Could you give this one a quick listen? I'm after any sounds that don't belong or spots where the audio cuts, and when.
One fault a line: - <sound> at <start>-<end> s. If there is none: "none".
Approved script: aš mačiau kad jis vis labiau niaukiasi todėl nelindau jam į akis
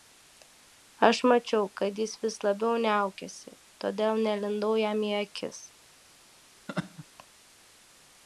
- laugh at 6.7-7.1 s